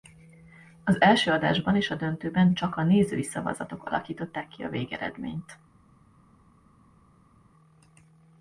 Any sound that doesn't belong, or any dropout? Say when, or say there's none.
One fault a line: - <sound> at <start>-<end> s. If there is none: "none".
none